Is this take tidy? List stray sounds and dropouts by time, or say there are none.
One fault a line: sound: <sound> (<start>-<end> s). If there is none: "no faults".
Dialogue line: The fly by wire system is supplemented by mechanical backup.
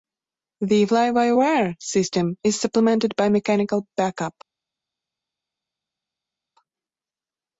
no faults